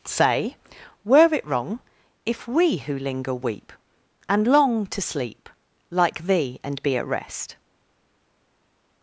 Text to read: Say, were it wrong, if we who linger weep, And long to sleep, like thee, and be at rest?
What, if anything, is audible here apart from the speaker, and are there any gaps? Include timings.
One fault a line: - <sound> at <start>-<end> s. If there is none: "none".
none